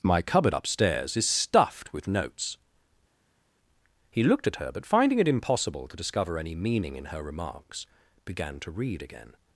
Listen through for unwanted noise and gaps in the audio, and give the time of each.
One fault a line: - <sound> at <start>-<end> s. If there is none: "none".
none